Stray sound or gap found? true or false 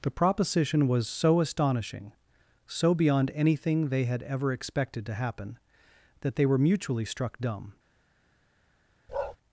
true